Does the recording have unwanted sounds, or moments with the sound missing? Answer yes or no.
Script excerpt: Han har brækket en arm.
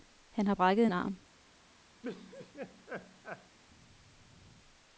yes